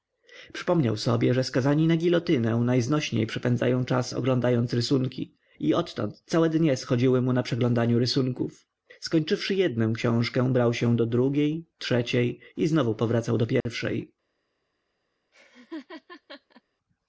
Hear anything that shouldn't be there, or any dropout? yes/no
yes